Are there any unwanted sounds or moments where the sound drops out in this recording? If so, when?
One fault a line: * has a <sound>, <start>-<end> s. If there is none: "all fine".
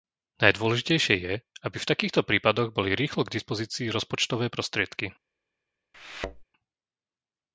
* has a thud, 5.9-6.4 s